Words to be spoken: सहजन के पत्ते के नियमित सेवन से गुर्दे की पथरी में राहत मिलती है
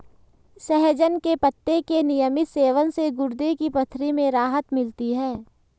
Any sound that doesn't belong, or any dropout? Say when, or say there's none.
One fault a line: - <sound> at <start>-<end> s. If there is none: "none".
none